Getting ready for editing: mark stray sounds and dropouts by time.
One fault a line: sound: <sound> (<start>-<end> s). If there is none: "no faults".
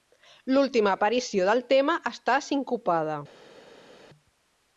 no faults